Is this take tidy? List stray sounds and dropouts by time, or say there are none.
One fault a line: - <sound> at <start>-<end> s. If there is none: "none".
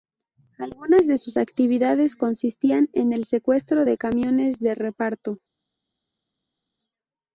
none